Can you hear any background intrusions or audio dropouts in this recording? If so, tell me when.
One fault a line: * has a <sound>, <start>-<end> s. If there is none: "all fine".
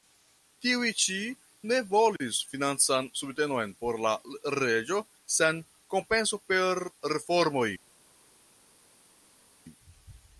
all fine